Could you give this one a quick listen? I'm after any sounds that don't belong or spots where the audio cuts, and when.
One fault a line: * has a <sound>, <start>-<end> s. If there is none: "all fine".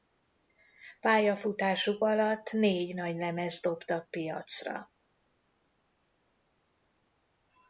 all fine